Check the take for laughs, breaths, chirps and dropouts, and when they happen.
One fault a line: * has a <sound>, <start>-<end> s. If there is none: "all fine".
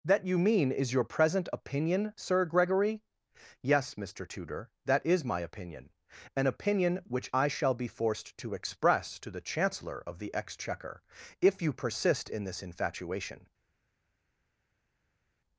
all fine